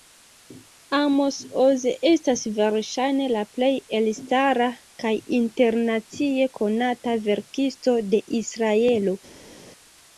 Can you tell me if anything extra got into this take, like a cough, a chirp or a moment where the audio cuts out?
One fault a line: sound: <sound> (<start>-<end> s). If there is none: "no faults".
no faults